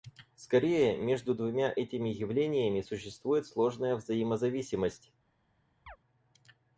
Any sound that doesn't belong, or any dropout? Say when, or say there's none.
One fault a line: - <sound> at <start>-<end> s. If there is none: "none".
- chirp at 5.9-6.0 s